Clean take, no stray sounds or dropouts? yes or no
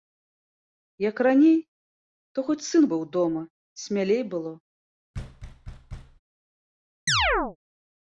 no